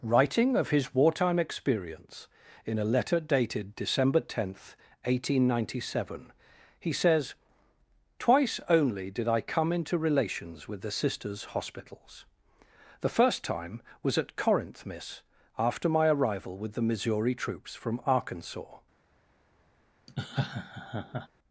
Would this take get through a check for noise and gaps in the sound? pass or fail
fail